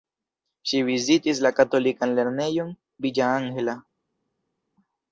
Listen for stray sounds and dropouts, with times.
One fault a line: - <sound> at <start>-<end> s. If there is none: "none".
none